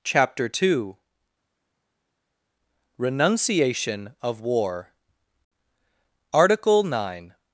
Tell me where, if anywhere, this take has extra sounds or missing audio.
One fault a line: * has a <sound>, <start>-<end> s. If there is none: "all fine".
all fine